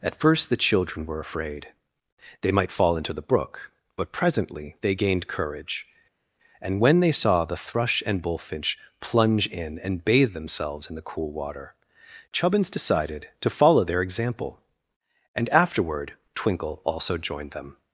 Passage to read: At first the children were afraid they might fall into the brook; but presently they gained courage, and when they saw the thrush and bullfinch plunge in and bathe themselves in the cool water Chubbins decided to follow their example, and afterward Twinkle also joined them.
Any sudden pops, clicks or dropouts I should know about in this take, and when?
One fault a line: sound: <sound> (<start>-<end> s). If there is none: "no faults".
no faults